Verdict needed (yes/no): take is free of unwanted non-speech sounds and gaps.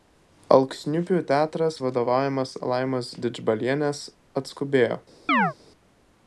no